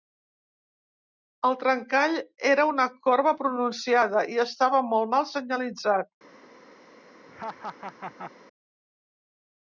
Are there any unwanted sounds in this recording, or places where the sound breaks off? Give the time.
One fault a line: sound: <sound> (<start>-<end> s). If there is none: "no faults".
sound: laugh (7.3-8.3 s)